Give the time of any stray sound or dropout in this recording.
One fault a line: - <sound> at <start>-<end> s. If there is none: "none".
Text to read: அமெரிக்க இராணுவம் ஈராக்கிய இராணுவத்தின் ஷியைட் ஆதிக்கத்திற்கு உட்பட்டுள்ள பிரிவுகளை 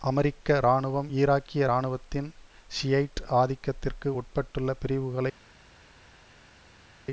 none